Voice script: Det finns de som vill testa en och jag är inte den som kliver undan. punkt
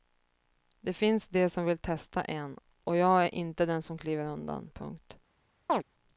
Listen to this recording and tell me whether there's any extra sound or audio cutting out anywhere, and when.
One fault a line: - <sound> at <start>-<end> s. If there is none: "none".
- chirp at 5.7-5.8 s